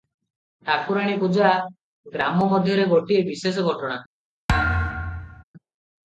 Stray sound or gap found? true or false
true